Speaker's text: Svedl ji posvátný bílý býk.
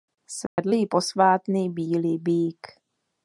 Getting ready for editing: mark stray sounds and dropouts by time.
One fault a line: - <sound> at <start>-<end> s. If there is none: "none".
- dropout at 0.5-0.6 s